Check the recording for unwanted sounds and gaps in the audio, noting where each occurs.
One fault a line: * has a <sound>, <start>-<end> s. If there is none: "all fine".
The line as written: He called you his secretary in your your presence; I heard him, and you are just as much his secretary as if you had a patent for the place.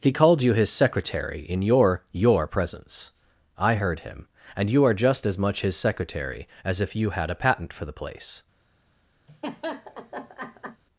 * has a laugh, 9.3-10.8 s